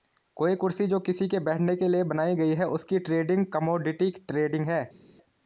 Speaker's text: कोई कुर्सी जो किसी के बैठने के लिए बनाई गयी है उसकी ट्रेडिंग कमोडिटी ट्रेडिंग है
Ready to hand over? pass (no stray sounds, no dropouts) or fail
pass